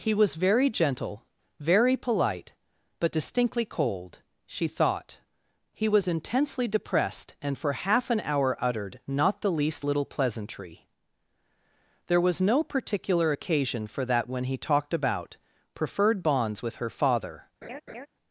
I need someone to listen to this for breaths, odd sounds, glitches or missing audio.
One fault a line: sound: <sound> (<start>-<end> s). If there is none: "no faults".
sound: laugh (17.6-18.1 s)